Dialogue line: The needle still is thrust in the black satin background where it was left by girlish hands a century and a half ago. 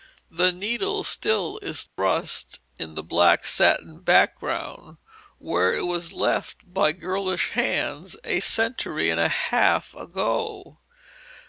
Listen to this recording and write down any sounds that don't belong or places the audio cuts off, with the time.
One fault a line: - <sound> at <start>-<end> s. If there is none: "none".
- dropout at 1.9-2.0 s